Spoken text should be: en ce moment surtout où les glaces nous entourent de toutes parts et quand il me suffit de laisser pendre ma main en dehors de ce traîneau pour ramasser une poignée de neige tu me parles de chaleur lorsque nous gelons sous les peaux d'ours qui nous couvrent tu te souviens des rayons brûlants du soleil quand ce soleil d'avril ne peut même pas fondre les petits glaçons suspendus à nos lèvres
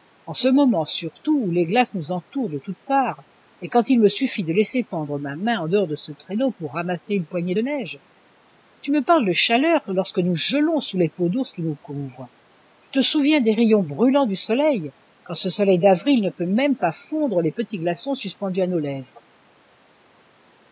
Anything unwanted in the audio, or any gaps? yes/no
no